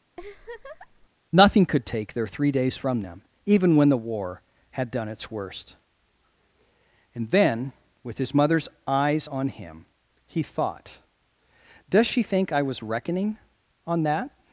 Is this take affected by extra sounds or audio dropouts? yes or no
yes